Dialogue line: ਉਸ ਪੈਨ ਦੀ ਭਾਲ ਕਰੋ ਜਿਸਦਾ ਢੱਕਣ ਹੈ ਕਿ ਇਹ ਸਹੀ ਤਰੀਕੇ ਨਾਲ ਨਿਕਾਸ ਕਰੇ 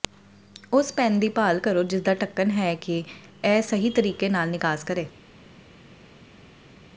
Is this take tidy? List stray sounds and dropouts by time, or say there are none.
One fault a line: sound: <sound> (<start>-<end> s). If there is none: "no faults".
no faults